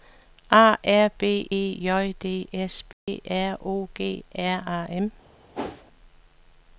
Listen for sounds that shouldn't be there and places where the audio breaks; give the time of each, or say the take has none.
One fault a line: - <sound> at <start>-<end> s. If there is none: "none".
- dropout at 2.9-3.1 s
- whoosh at 5.5-5.8 s